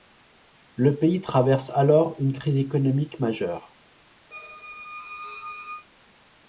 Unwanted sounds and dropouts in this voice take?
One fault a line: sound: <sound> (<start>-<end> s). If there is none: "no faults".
sound: squeak (4.3-5.9 s)